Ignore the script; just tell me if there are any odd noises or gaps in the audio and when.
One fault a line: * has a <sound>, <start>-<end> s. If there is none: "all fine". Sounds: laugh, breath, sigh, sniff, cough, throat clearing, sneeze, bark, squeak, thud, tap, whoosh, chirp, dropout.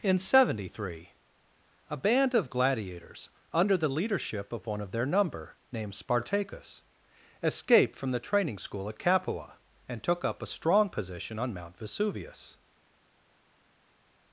all fine